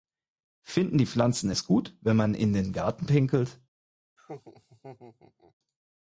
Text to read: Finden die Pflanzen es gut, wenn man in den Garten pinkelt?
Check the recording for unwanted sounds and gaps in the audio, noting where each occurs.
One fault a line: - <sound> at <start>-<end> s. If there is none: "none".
- laugh at 4.2-5.5 s